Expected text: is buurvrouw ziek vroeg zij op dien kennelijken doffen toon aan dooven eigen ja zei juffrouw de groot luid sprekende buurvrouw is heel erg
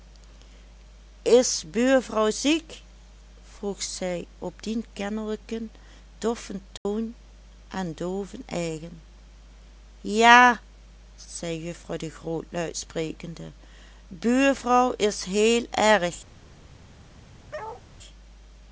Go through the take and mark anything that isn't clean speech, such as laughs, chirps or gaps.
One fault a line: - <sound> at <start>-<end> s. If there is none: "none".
- dropout at 6.8-6.9 s
- bark at 17.5-17.8 s